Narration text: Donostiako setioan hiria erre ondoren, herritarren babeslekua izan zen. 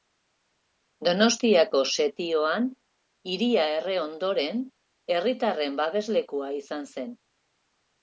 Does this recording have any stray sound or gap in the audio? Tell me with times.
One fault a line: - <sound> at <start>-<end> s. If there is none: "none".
none